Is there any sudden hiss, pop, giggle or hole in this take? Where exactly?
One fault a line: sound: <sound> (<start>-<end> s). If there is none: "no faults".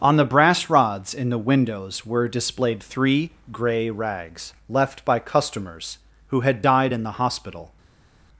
no faults